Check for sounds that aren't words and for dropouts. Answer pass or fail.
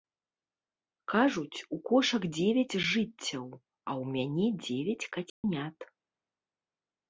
fail